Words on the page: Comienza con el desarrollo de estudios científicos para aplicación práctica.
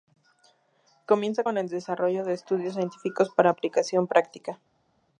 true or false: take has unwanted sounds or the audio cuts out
false